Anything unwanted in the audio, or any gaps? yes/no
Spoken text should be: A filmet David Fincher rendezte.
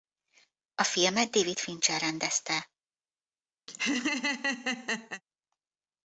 yes